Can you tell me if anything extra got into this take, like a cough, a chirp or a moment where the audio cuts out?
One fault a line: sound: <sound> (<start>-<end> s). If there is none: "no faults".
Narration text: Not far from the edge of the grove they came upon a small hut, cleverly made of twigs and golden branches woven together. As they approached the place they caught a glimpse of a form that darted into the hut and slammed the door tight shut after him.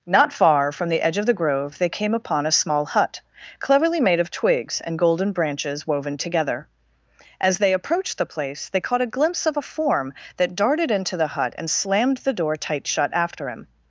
no faults